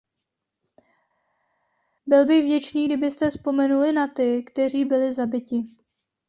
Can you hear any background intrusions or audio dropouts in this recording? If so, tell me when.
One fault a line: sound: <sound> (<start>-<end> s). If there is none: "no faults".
no faults